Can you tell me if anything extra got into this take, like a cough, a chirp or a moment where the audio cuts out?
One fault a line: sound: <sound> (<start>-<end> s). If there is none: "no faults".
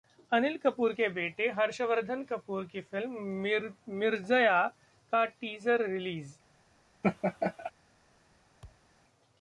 sound: laugh (7.0-7.7 s)
sound: thud (8.6-8.9 s)